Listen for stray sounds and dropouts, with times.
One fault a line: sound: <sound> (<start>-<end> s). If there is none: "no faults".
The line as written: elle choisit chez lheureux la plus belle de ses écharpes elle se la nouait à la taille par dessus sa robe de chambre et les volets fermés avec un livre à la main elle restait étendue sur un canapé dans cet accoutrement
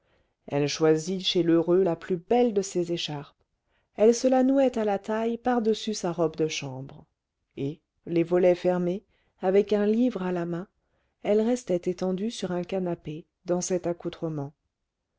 no faults